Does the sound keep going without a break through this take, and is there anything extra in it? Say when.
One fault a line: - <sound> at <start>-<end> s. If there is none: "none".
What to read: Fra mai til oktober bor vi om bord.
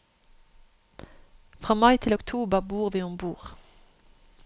none